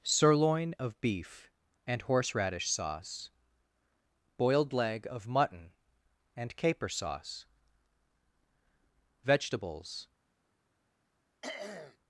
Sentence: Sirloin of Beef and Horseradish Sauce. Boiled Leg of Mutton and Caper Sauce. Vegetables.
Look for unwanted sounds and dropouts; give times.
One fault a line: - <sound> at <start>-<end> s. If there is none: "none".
- throat clearing at 11.4-12.0 s